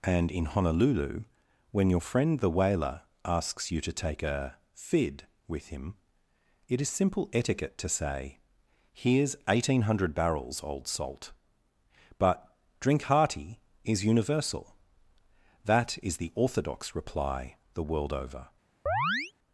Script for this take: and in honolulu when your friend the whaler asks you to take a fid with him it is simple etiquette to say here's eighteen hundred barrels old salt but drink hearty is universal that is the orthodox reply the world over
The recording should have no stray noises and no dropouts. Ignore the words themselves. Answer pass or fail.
fail